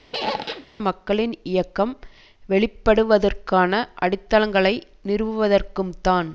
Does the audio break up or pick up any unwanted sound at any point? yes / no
yes